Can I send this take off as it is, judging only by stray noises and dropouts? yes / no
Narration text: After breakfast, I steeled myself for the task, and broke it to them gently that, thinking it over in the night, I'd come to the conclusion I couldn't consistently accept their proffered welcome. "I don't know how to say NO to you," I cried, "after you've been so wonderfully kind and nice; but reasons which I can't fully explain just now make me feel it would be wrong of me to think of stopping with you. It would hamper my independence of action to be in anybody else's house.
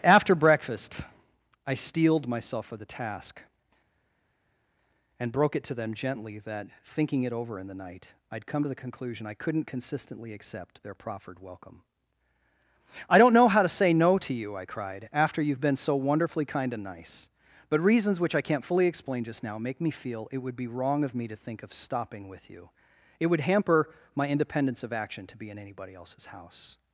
yes